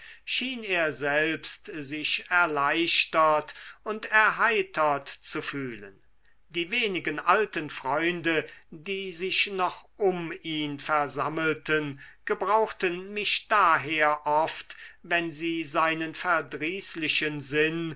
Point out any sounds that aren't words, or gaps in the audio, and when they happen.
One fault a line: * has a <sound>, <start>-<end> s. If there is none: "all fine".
all fine